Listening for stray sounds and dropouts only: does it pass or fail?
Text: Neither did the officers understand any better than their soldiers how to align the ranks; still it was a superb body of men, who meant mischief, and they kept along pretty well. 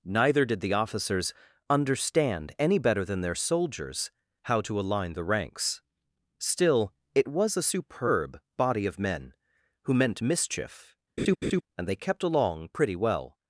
fail